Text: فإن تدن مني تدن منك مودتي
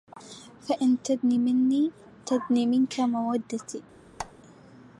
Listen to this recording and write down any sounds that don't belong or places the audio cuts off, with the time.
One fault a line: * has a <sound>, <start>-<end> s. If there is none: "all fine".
* has a squeak, 4.2-4.3 s